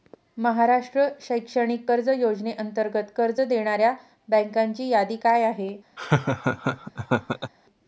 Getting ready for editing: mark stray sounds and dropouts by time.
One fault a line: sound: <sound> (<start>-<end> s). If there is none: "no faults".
sound: laugh (6.0-7.5 s)